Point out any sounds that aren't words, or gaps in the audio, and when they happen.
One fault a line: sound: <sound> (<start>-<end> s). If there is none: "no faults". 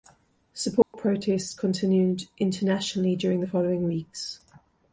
sound: dropout (0.8-0.9 s)